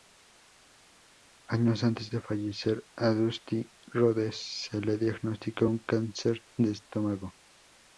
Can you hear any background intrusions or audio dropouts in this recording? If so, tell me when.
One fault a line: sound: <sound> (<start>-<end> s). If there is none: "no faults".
no faults